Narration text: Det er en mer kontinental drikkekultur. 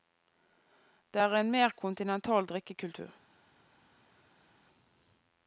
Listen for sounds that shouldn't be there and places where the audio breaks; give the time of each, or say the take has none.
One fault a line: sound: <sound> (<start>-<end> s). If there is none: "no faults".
no faults